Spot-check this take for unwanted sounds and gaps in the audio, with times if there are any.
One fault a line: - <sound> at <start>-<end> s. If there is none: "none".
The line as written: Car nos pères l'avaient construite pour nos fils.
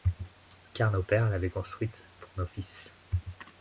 none